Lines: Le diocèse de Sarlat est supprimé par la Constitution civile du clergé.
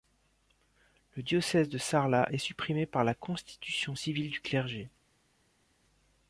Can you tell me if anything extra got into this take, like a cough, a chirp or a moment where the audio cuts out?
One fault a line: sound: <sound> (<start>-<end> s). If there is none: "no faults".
no faults